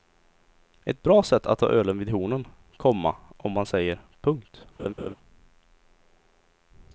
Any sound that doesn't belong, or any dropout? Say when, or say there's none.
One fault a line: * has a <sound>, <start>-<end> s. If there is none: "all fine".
* has a laugh, 4.8-5.1 s